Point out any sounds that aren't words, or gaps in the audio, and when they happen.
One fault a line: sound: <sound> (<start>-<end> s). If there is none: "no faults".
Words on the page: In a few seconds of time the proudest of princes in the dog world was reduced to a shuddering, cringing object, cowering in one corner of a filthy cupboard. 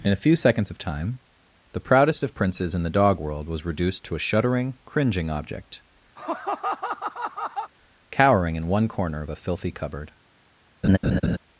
sound: laugh (6.2-7.7 s)
sound: laugh (10.8-11.4 s)